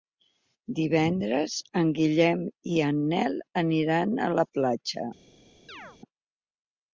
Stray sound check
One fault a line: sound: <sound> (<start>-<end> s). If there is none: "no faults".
sound: chirp (5.7-6.0 s)